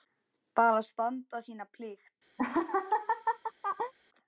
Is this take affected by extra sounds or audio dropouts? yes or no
yes